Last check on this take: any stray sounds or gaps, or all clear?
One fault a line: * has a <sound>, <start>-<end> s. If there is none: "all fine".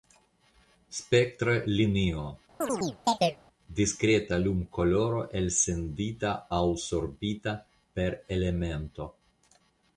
* has a chirp, 2.6-3.4 s